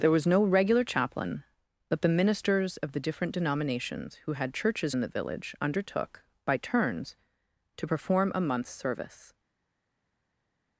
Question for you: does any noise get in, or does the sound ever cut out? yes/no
no